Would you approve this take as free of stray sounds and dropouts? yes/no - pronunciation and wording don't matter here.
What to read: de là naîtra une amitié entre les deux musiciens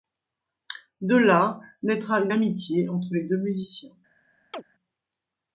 no